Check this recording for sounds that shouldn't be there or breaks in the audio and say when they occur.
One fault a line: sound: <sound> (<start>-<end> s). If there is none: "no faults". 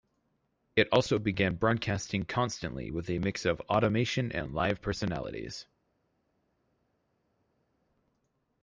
no faults